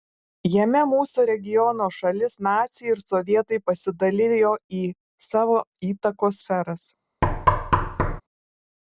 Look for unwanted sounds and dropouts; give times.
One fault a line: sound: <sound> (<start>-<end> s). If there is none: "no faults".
sound: thud (7.2-8.2 s)